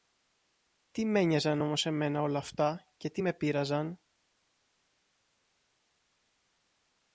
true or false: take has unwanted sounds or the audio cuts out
false